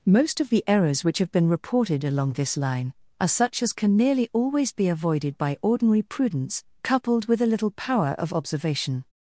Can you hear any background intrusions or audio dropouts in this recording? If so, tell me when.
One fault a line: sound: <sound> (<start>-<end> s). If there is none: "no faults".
no faults